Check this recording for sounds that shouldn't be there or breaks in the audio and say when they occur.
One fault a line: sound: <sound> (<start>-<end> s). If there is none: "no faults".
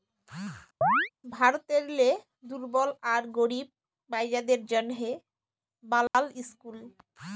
sound: chirp (0.8-1.1 s)
sound: dropout (6.1-6.1 s)